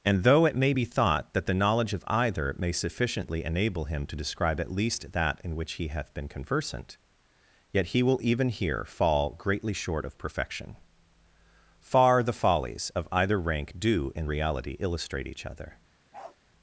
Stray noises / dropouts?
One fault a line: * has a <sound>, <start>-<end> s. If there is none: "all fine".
* has a bark, 16.1-16.4 s